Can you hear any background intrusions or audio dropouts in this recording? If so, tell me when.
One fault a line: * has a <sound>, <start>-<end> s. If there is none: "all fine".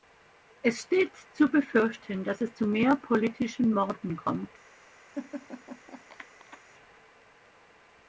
* has a laugh, 5.1-6.6 s